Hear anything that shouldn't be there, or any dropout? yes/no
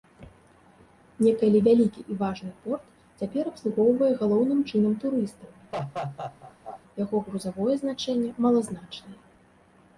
yes